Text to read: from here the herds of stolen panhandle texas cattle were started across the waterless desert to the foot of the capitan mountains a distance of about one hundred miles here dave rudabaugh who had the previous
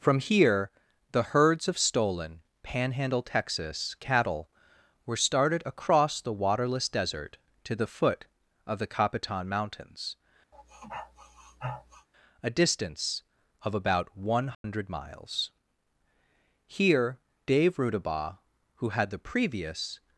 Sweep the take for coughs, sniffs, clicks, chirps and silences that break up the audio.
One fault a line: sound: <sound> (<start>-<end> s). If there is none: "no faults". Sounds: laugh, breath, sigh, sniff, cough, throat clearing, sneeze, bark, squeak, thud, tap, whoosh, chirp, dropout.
sound: sniff (10.5-12.1 s)
sound: dropout (14.5-14.6 s)